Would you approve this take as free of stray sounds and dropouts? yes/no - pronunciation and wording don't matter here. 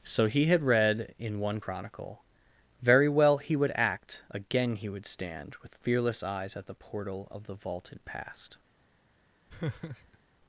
no